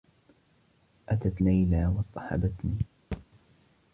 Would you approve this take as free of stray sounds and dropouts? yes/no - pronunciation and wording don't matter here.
no